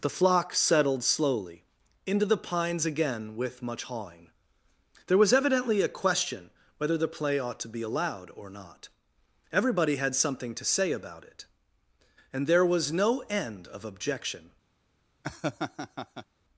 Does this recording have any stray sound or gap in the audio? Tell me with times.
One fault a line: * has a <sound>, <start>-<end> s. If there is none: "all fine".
* has a laugh, 15.2-16.3 s